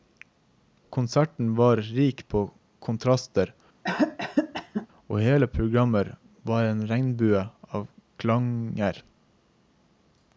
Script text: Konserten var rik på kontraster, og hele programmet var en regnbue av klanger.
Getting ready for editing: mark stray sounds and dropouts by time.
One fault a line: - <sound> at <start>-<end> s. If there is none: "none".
- cough at 3.8-4.9 s